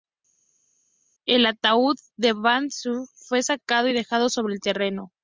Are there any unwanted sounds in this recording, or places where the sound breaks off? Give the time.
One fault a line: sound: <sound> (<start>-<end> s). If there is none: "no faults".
no faults